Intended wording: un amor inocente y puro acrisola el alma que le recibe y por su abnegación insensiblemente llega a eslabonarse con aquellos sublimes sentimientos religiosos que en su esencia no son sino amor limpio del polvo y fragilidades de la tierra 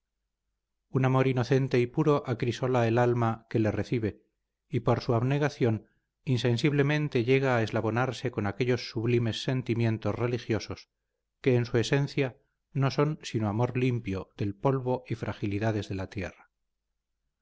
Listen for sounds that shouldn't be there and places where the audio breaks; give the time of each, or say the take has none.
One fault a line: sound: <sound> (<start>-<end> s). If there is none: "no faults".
no faults